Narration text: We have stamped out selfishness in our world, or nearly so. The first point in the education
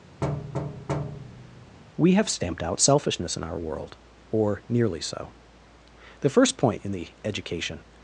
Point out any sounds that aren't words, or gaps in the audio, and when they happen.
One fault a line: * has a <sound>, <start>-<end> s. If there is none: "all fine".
* has a thud, 0.2-1.8 s